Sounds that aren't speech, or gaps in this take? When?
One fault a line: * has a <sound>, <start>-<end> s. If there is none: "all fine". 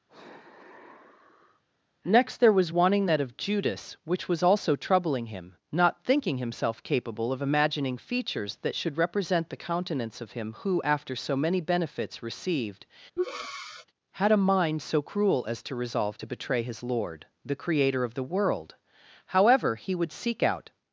* has a sigh, 0.1-1.6 s
* has a breath, 13.2-13.9 s